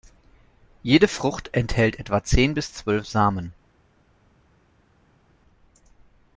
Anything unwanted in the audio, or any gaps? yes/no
no